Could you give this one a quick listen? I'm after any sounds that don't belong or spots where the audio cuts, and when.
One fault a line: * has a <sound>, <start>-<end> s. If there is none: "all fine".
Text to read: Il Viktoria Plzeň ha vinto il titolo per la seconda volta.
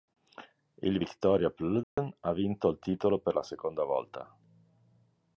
* has a dropout, 1.8-2.0 s